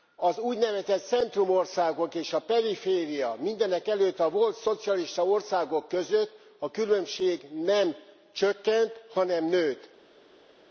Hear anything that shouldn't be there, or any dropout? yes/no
no